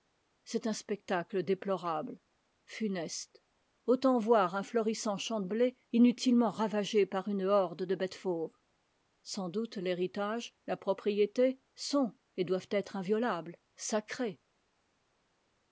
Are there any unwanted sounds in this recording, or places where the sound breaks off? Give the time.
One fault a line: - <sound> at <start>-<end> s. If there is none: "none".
none